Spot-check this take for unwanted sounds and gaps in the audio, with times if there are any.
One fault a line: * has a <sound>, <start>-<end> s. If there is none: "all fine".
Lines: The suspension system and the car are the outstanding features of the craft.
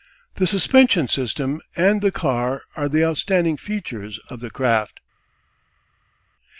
all fine